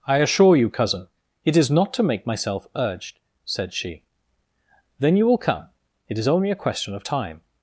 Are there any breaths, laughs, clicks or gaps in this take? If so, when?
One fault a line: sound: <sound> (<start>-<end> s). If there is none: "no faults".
no faults